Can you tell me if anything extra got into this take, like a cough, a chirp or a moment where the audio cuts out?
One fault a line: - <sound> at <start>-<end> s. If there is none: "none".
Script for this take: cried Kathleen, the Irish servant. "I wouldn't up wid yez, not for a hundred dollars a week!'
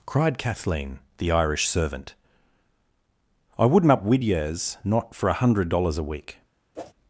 - whoosh at 6.7-6.9 s